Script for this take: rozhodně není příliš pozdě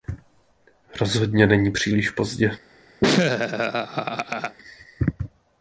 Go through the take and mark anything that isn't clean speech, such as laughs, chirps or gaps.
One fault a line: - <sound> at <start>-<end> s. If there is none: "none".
- laugh at 3.0-4.6 s